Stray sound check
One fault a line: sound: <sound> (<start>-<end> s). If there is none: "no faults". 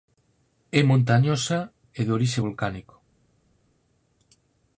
no faults